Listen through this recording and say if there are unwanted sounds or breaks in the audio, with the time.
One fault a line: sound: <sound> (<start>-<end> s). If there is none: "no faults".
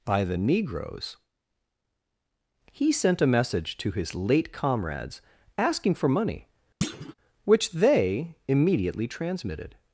sound: thud (6.8-7.1 s)